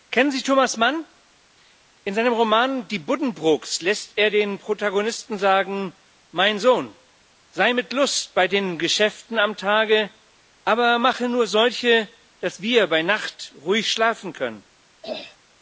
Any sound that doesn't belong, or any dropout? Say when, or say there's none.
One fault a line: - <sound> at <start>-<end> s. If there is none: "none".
- throat clearing at 15.0-15.4 s